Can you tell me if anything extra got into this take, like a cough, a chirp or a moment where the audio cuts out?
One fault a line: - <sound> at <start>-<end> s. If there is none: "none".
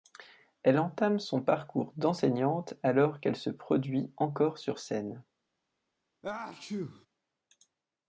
- sneeze at 6.2-7.1 s